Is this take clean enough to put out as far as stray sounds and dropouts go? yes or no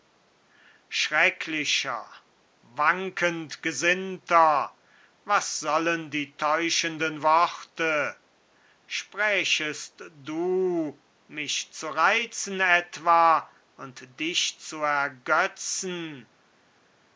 yes